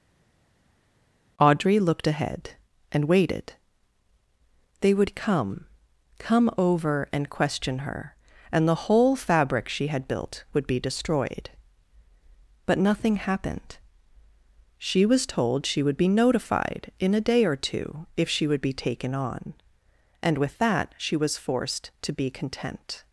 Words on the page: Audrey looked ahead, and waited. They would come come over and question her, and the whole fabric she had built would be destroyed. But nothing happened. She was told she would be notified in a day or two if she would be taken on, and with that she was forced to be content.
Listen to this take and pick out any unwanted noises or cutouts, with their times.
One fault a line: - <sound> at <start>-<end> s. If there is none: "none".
none